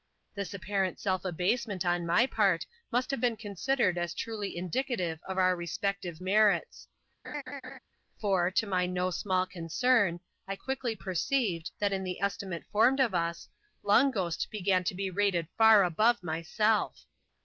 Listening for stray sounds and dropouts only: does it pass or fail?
fail